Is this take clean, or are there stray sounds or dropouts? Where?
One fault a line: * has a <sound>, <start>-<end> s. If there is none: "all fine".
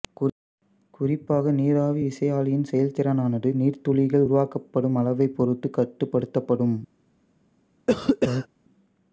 * has a cough, 7.9-8.5 s